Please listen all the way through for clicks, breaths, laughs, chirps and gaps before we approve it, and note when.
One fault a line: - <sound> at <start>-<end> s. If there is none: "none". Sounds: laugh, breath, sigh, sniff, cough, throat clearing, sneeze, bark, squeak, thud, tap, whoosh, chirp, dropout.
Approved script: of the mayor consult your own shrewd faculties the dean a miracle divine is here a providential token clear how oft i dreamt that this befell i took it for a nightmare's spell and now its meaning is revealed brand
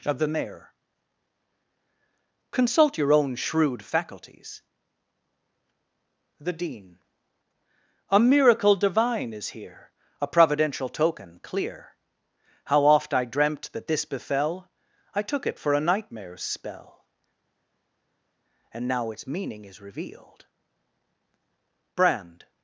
none